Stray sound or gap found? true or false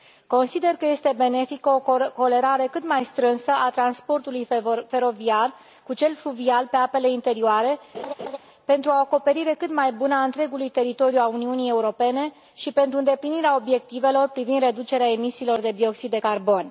true